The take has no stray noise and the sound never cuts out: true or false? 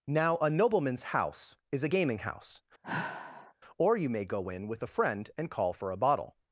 false